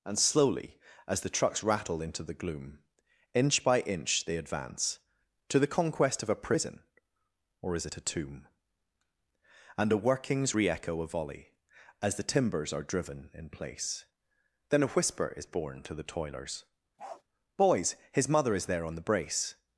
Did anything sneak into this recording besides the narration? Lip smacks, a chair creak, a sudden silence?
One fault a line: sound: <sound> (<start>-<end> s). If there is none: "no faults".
sound: bark (17.0-17.2 s)